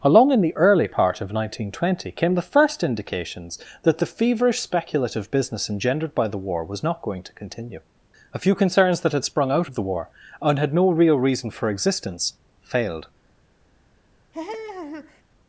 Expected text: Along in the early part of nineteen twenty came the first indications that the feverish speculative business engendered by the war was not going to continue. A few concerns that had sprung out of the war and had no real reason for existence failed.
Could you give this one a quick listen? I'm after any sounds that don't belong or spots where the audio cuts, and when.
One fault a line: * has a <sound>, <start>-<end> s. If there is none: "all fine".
* has a laugh, 14.3-15.2 s